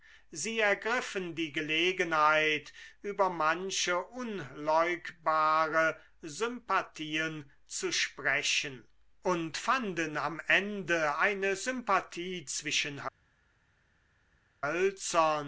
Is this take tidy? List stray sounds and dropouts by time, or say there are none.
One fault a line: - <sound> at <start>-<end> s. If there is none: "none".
none